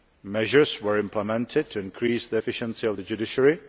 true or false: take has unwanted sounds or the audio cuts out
false